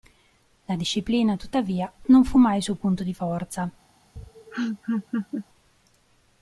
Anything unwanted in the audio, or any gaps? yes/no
yes